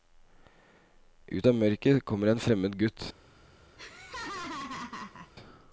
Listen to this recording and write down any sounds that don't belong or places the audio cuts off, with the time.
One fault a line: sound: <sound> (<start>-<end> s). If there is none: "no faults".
sound: laugh (3.8-5.3 s)